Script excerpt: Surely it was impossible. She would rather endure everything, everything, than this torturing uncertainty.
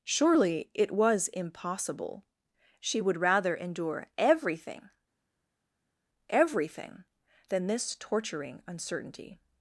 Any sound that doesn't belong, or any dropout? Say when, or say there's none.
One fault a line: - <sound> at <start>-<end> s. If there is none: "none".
none